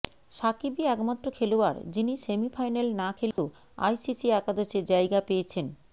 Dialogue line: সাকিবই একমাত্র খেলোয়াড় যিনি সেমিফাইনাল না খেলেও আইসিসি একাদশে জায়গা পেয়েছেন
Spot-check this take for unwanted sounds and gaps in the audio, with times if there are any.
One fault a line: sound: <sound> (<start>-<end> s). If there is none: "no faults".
sound: dropout (3.3-3.4 s)